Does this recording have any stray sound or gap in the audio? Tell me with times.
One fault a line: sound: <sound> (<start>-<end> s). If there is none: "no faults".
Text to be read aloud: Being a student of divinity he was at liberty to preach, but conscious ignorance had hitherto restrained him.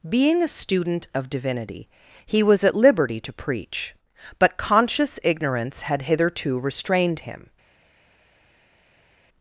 no faults